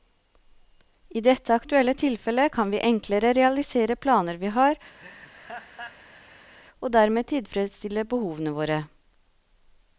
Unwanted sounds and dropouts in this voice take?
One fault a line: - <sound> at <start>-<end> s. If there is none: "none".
- laugh at 5.0-6.5 s